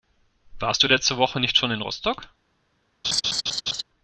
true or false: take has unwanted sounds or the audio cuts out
true